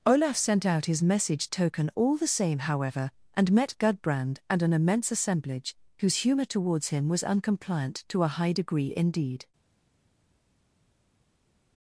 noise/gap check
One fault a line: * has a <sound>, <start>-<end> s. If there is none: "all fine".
all fine